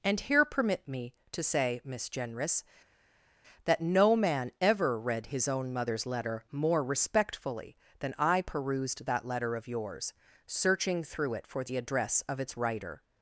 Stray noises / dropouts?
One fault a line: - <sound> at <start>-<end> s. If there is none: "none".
none